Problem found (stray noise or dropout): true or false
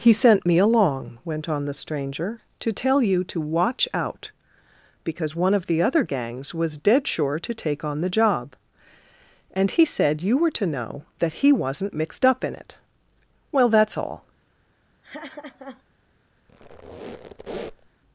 true